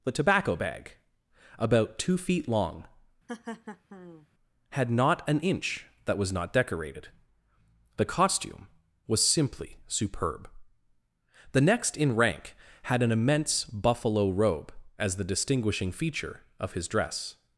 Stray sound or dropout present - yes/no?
yes